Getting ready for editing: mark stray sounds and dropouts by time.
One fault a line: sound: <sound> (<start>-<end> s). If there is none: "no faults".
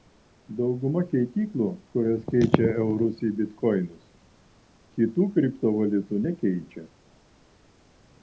no faults